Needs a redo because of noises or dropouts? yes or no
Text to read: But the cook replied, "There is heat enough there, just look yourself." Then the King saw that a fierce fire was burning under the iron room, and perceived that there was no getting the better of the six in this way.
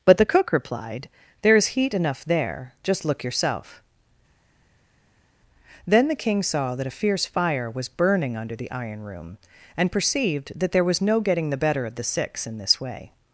no